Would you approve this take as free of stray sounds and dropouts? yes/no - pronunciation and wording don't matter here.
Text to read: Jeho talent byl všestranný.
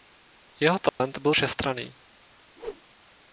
no